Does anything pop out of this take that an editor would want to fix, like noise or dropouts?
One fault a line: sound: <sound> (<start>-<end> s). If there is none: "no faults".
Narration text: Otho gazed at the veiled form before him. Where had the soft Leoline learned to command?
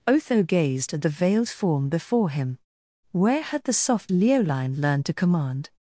no faults